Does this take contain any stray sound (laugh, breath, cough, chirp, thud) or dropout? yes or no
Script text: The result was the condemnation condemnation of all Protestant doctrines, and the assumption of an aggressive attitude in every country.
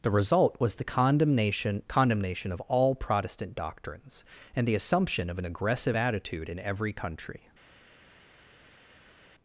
no